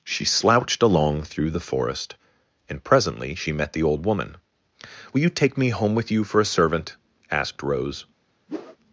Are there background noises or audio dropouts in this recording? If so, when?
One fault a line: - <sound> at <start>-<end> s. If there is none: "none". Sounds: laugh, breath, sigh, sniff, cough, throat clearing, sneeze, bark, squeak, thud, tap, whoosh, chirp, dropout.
- whoosh at 8.5-8.8 s